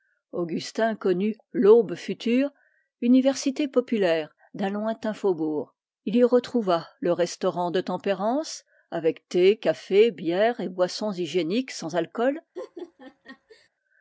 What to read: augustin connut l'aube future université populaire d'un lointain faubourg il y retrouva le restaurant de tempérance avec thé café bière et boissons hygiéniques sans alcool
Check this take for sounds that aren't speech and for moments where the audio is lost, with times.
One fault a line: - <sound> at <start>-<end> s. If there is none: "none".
- laugh at 12.5-13.7 s